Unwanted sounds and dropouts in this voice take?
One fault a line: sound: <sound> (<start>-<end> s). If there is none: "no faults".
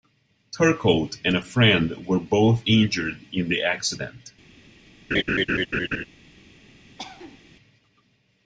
sound: laugh (5.1-6.1 s)
sound: cough (7.0-7.4 s)